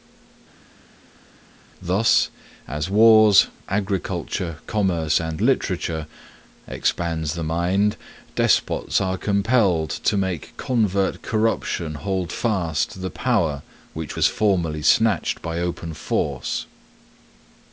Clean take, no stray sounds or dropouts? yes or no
yes